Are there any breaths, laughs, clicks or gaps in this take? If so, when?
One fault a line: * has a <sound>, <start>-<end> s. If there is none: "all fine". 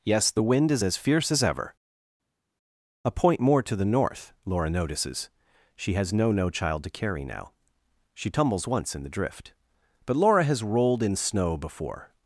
all fine